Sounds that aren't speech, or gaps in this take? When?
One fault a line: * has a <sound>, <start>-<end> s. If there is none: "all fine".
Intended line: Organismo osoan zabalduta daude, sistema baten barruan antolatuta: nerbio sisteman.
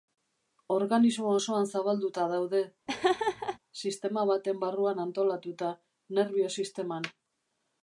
* has a laugh, 2.9-3.6 s